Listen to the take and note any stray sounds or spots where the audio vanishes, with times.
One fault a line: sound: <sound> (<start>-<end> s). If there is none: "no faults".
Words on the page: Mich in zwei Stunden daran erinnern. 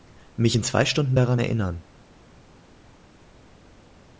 no faults